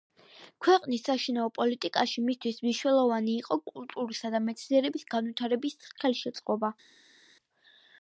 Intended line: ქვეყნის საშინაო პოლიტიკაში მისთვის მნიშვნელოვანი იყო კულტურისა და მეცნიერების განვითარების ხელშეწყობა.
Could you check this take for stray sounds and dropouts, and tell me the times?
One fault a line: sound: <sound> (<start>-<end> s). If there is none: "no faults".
no faults